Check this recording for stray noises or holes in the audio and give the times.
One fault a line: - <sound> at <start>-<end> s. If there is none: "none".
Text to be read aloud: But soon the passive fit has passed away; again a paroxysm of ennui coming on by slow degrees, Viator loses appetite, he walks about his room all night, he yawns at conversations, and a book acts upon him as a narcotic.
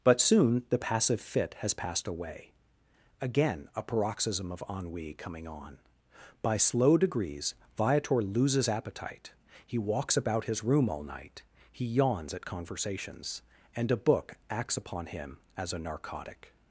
none